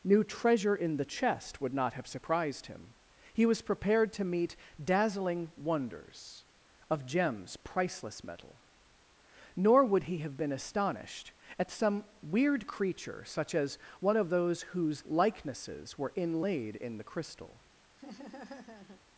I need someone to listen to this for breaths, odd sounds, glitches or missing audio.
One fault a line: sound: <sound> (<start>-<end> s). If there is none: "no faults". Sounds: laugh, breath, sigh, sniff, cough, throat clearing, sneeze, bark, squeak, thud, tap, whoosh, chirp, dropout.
sound: laugh (18.0-19.0 s)